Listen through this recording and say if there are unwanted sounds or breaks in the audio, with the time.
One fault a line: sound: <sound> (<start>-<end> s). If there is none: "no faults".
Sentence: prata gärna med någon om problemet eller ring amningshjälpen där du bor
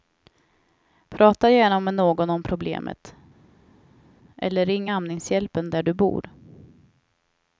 no faults